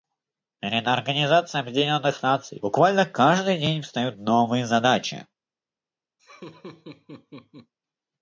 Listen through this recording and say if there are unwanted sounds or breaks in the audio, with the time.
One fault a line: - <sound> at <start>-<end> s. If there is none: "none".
- laugh at 6.2-7.7 s